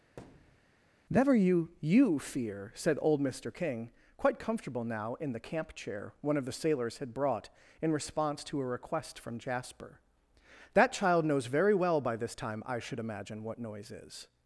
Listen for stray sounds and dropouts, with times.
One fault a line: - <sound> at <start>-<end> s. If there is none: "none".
- thud at 0.2-0.7 s